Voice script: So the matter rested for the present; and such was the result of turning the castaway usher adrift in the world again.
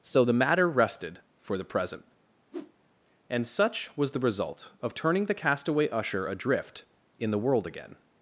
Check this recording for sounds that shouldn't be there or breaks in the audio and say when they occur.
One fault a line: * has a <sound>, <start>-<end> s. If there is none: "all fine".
* has a whoosh, 2.5-2.7 s